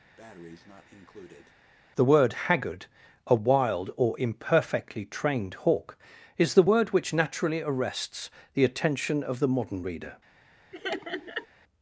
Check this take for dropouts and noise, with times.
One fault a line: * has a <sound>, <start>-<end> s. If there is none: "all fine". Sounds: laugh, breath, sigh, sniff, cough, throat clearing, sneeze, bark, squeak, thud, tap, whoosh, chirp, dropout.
* has a breath, 0.2-1.5 s
* has a laugh, 10.7-11.5 s